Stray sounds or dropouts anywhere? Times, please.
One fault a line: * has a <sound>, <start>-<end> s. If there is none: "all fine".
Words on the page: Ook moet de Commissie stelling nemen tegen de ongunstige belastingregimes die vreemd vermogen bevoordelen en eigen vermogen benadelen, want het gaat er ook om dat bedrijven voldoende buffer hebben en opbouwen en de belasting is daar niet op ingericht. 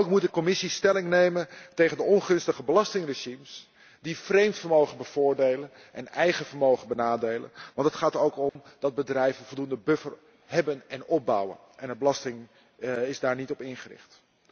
* has a dropout, 8.5-8.6 s